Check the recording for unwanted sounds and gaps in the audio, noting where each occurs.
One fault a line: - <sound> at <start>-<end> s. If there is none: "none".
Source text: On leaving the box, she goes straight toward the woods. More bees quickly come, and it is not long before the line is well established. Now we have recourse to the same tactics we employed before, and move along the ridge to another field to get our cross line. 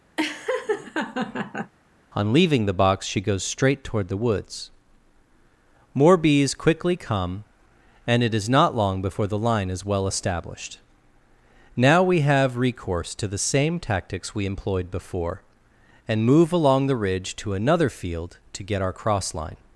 - laugh at 0.2-1.7 s